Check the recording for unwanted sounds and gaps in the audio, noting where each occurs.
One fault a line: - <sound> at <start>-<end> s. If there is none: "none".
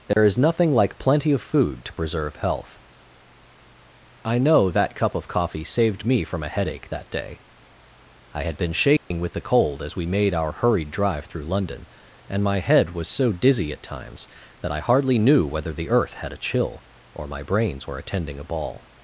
- dropout at 0.1-0.2 s
- dropout at 9.0-9.1 s